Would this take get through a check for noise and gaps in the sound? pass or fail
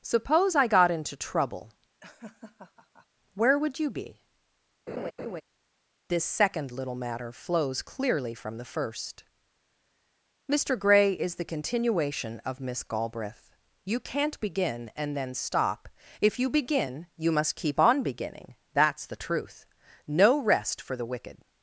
fail